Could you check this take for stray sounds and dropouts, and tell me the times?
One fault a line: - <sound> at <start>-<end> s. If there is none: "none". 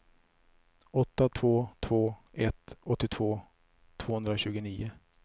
none